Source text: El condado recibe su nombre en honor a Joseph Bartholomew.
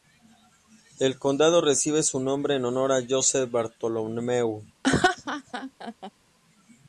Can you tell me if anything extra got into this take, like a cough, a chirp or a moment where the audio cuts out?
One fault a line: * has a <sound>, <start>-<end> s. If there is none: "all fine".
* has a laugh, 4.8-6.1 s